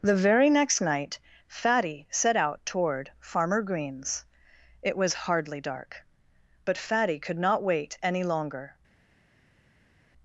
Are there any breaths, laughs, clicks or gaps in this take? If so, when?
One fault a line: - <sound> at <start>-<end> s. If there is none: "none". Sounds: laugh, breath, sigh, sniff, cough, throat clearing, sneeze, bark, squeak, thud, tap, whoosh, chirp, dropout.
none